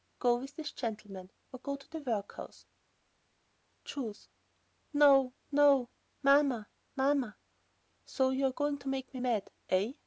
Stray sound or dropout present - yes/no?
no